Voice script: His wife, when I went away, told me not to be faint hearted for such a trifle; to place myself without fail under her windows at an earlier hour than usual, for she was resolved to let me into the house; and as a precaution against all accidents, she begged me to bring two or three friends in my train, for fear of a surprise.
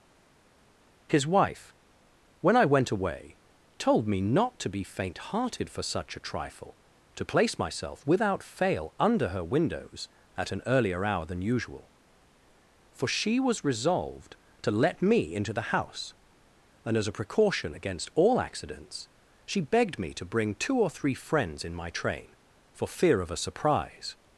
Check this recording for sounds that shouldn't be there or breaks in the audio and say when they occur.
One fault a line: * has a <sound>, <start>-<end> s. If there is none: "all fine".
all fine